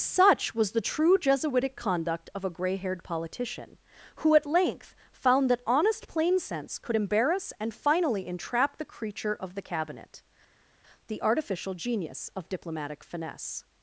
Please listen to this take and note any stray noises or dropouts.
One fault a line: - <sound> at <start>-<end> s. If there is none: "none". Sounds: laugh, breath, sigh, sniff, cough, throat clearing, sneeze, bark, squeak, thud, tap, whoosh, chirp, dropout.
none